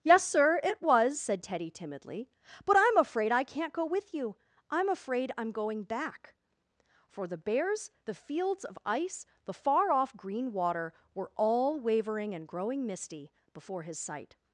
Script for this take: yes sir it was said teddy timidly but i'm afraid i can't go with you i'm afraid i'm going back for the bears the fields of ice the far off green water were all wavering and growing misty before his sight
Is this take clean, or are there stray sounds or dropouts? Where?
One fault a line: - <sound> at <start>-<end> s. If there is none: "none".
none